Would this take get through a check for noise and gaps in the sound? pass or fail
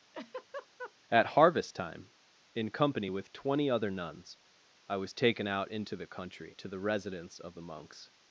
fail